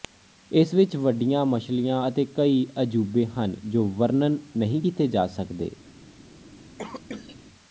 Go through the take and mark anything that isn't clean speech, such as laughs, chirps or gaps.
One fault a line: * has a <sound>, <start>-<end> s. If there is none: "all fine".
* has a cough, 6.8-7.4 s